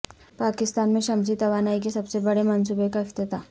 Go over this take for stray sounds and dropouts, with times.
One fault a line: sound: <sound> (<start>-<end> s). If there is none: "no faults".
no faults